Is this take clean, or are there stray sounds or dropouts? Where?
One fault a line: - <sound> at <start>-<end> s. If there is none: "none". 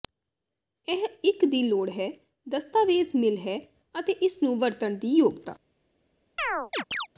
- chirp at 6.4-7.1 s